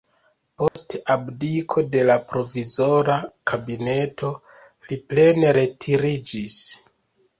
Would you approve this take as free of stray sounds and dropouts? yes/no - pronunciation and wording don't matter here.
no